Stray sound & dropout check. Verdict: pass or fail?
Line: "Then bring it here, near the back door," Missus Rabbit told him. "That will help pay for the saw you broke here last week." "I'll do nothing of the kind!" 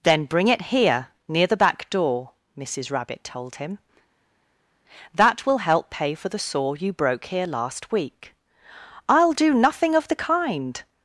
pass